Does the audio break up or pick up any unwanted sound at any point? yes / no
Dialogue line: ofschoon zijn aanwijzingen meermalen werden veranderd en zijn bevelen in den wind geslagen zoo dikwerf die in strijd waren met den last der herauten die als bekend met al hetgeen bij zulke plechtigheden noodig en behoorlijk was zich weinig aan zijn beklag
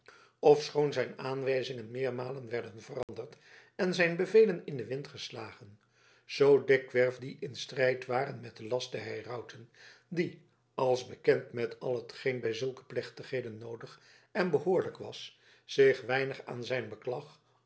yes